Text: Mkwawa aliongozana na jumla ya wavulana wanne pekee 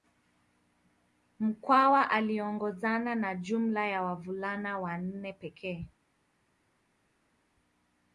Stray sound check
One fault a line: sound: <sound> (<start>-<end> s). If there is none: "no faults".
no faults